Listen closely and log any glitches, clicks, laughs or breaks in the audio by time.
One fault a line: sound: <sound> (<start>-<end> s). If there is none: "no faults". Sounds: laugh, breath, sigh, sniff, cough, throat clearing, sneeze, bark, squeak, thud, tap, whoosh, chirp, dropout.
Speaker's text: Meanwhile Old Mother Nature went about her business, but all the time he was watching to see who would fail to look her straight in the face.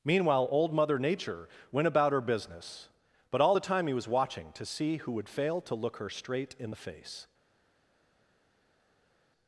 no faults